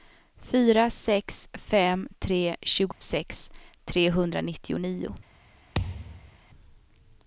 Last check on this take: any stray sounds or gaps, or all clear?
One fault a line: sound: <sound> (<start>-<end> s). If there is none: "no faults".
sound: dropout (2.9-3.0 s)
sound: thud (5.7-6.4 s)